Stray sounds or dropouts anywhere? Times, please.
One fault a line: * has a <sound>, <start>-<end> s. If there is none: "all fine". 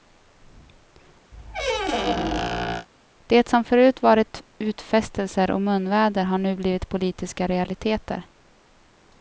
* has a squeak, 1.3-2.9 s